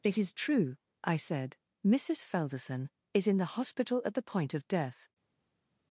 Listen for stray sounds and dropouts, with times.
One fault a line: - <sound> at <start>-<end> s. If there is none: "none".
none